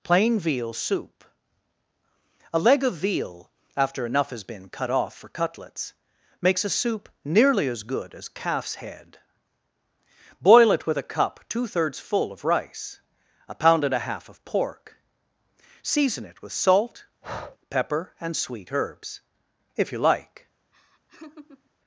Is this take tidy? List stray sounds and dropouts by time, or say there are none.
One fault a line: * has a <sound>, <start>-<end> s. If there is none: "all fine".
* has a breath, 17.2-17.6 s
* has a laugh, 20.7-21.7 s